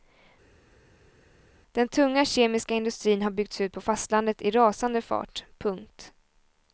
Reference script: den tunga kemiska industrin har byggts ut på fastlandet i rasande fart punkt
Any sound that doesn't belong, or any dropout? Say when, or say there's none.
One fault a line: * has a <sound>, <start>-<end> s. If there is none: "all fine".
all fine